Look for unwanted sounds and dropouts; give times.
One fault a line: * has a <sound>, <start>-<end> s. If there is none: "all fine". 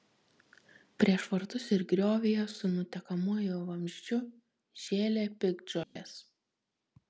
* has a dropout, 5.8-6.0 s